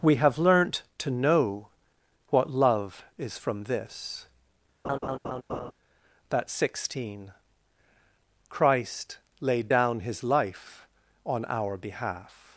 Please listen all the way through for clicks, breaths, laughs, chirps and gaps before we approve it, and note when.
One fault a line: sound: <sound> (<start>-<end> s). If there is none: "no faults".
sound: laugh (4.8-5.7 s)